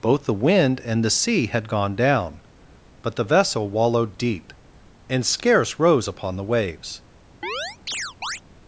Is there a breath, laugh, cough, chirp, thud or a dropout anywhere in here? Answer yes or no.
yes